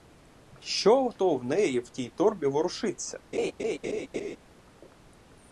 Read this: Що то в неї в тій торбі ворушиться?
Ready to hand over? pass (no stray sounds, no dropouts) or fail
fail